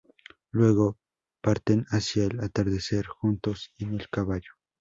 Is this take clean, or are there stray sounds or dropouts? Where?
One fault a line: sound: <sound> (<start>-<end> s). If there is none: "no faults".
no faults